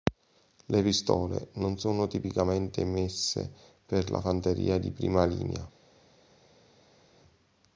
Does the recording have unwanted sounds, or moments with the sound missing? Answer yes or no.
no